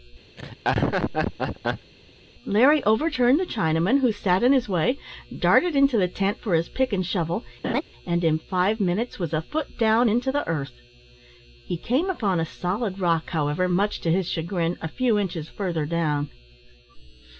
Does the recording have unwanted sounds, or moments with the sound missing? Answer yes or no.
yes